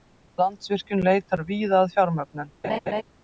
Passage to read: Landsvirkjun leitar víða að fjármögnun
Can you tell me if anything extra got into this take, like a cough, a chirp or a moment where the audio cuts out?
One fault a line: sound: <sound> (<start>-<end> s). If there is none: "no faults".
sound: laugh (2.6-3.0 s)